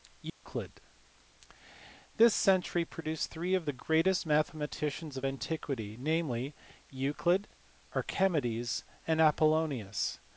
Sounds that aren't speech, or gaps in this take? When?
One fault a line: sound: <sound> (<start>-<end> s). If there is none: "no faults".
sound: dropout (0.3-0.4 s)